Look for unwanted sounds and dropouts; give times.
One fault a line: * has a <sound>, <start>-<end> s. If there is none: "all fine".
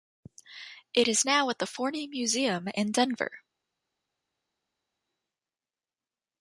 all fine